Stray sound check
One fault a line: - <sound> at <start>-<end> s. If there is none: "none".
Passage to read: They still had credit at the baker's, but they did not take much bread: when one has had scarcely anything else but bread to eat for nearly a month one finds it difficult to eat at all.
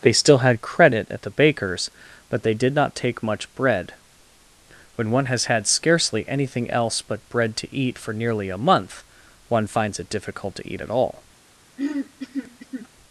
- throat clearing at 11.8-12.9 s